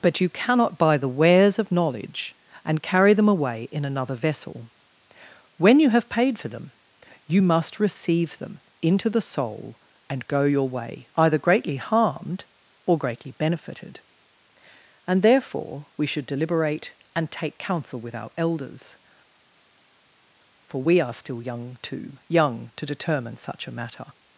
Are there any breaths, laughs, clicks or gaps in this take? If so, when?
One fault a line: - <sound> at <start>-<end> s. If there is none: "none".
none